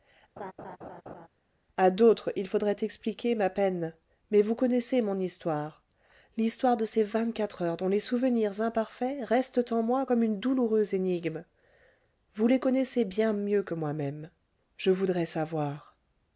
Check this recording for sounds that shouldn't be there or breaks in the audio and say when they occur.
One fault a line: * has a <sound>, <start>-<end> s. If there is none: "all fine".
* has a laugh, 0.4-1.3 s